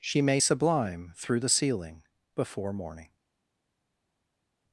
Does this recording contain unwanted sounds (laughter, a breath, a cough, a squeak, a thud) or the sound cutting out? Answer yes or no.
no